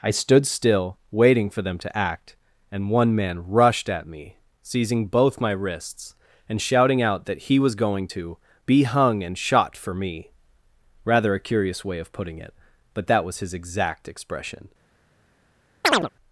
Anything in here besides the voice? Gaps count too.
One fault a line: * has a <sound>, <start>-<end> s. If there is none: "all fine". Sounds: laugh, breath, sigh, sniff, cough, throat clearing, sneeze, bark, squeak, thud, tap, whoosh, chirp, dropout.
* has a chirp, 15.8-16.1 s